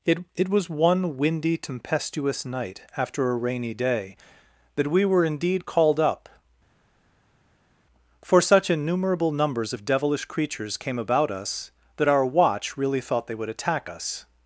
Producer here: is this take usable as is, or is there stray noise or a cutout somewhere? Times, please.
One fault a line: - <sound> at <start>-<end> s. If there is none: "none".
none